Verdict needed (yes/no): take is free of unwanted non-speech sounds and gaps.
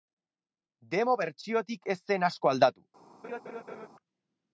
no